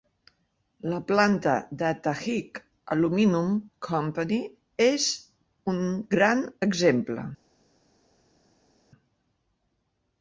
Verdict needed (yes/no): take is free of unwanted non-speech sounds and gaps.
yes